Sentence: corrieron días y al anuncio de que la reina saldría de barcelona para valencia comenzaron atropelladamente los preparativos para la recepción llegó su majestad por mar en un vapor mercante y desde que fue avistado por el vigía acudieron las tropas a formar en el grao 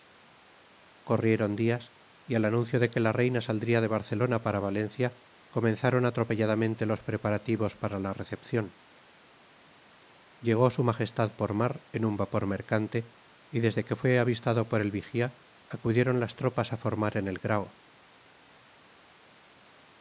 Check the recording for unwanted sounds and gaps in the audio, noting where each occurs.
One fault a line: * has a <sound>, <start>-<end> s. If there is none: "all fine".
all fine